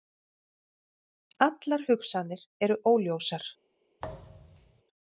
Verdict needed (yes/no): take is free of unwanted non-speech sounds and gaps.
no